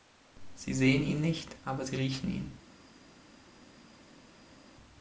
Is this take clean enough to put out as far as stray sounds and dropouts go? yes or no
yes